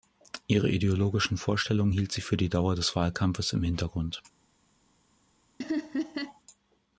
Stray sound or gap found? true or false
true